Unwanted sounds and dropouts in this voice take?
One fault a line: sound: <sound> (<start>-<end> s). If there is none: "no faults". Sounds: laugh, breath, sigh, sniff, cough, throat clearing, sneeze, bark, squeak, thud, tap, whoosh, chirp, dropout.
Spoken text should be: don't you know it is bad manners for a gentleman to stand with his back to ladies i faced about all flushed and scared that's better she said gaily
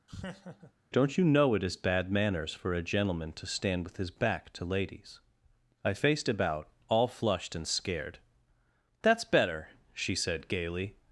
sound: laugh (0.1-0.7 s)